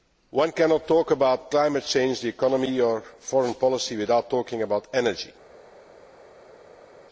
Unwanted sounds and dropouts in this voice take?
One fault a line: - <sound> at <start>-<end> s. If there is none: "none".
none